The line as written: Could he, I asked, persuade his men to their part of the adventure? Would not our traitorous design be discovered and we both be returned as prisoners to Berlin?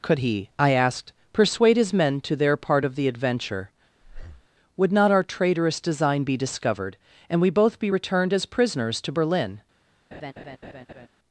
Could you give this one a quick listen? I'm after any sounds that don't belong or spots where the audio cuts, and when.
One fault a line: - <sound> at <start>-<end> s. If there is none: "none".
- breath at 4.0-4.5 s
- laugh at 10.1-11.1 s